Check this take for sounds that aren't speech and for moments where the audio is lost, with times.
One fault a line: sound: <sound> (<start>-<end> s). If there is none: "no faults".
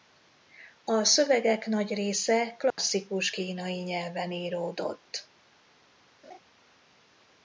sound: dropout (2.7-2.8 s)
sound: laugh (6.2-6.4 s)